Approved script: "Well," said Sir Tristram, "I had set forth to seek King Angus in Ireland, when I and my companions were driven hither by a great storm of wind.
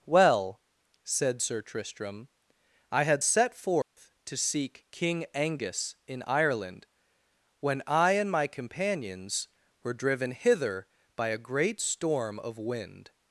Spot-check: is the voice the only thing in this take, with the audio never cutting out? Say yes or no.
no